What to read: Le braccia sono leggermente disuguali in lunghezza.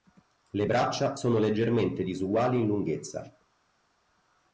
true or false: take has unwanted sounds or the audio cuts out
false